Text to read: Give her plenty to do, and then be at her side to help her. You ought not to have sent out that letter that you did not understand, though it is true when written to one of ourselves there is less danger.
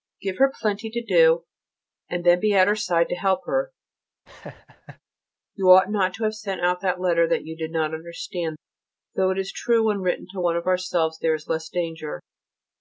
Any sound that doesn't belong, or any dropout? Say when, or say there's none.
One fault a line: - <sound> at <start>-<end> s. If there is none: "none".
- laugh at 4.3-5.0 s